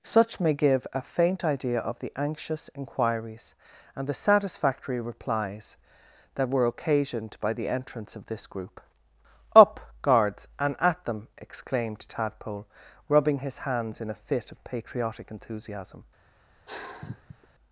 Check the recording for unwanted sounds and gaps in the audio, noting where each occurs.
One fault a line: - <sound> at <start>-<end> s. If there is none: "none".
- sigh at 16.7-17.5 s